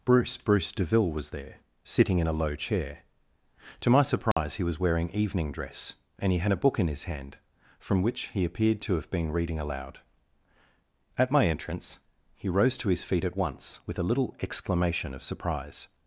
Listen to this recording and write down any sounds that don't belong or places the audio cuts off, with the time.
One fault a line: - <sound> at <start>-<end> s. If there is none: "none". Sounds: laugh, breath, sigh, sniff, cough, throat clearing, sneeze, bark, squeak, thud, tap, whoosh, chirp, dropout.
- dropout at 4.3-4.4 s